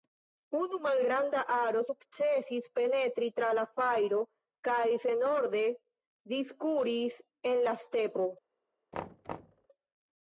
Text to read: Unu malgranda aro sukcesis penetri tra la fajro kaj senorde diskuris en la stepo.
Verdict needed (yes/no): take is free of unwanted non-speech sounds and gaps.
no